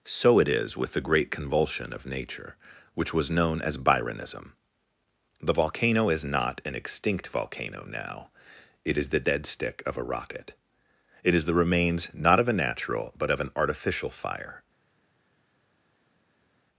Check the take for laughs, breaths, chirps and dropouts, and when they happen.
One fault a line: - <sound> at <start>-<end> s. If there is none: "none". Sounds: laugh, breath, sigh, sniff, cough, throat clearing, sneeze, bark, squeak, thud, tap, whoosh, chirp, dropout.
none